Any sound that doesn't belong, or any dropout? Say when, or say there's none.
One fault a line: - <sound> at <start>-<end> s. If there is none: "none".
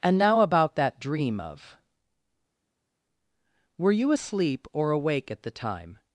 none